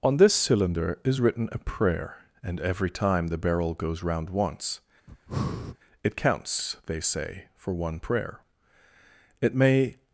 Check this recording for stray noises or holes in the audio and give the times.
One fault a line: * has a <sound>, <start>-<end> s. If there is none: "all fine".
* has a breath, 5.1-5.8 s